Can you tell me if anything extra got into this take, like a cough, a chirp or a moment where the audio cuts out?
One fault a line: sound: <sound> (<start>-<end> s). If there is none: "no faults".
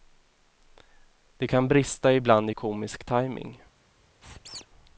sound: squeak (4.2-4.7 s)